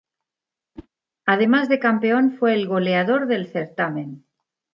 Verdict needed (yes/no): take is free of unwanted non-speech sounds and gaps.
no